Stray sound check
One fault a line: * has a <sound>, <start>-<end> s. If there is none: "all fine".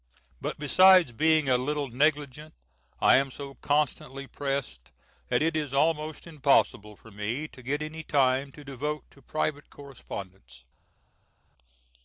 all fine